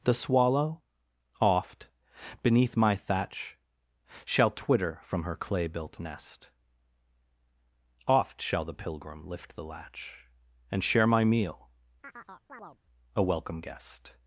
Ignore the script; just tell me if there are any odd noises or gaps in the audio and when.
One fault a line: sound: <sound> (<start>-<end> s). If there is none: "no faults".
sound: chirp (12.0-12.8 s)